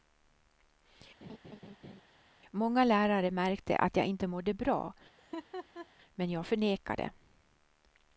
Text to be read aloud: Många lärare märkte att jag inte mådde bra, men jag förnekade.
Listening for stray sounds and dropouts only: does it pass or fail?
fail